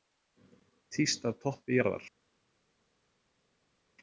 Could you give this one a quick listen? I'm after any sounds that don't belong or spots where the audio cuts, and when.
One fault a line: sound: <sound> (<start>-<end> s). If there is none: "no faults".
no faults